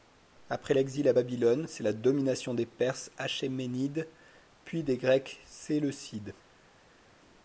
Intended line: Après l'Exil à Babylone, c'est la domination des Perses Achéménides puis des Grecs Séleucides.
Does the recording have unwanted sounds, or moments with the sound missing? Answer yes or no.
no